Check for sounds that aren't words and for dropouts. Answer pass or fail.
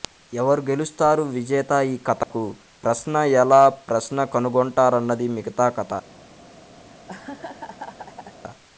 fail